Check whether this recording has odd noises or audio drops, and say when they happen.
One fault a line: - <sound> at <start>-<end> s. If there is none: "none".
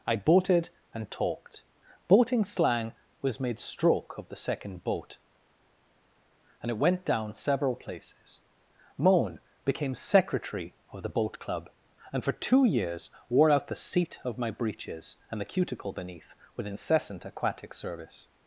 none